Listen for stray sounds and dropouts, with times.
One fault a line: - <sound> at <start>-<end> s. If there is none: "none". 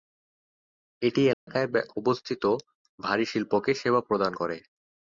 - dropout at 1.3-1.5 s